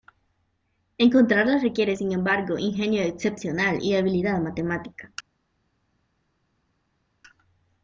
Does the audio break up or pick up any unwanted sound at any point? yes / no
no